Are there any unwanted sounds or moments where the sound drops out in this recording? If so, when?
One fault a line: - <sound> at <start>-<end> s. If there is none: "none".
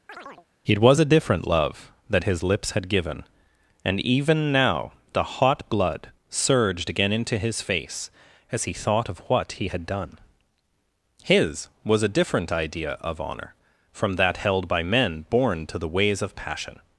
- chirp at 0.1-0.5 s